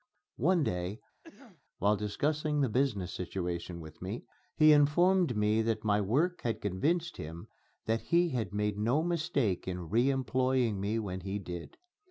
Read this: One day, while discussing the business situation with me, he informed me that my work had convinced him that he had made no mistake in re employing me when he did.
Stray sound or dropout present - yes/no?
yes